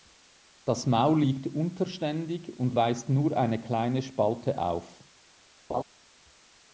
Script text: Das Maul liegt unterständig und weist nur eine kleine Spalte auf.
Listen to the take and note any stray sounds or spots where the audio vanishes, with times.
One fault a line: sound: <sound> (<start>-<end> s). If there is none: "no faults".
sound: laugh (5.7-5.8 s)